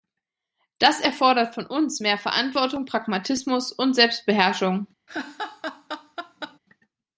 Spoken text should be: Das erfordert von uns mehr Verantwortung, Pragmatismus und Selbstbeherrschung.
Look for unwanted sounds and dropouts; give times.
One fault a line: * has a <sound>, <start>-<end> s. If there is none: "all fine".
* has a laugh, 5.1-6.6 s